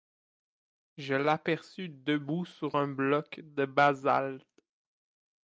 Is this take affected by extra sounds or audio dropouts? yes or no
no